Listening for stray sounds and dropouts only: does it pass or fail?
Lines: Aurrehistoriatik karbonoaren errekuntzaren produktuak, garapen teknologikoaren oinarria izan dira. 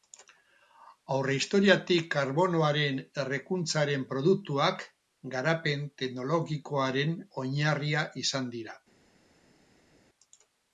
pass